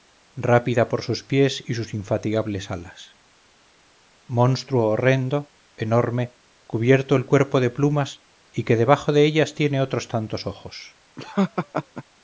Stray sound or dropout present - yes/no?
yes